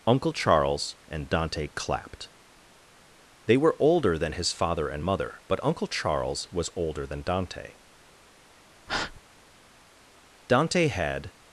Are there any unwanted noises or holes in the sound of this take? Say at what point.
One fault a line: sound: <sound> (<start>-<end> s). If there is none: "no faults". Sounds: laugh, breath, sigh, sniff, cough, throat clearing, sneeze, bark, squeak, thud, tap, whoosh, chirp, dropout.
sound: breath (8.9-9.2 s)